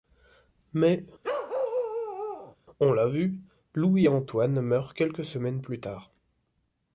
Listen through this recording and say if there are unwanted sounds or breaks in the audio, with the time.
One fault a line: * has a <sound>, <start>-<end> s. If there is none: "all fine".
* has a bark, 1.2-2.6 s